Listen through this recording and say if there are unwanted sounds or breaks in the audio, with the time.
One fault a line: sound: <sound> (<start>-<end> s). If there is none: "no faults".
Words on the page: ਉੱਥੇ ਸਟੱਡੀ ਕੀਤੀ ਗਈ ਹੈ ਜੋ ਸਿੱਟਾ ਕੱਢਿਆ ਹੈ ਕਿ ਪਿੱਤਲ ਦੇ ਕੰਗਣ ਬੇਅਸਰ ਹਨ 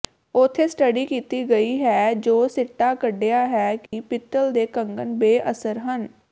sound: dropout (3.9-3.9 s)